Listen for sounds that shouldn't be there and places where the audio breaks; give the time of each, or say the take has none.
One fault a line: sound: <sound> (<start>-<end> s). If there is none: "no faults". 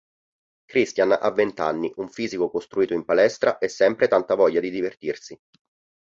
no faults